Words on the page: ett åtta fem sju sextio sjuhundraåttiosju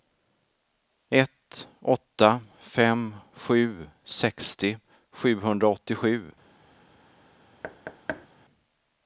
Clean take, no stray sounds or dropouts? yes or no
no